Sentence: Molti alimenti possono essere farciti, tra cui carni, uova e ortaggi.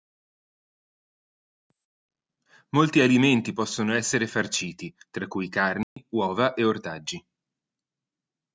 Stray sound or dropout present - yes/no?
yes